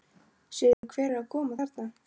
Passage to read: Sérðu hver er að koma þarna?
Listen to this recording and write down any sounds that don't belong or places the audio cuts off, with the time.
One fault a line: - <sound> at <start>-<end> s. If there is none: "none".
- dropout at 0.7-0.8 s